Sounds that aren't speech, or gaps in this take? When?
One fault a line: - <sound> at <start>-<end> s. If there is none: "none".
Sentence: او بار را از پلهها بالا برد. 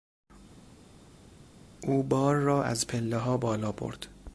none